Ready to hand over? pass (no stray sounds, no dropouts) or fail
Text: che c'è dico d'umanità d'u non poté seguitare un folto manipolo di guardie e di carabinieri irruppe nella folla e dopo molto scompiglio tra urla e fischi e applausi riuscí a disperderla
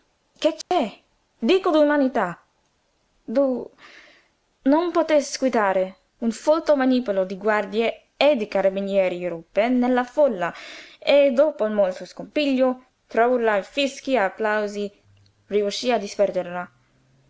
fail